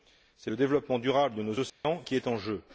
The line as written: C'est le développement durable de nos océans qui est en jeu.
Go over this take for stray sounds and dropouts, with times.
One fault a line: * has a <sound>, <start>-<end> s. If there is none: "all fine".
* has a dropout, 1.7-1.8 s